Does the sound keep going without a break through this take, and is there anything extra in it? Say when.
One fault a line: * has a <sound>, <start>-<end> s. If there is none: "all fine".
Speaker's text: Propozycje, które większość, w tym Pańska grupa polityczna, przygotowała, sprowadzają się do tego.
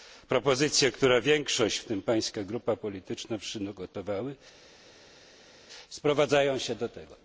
all fine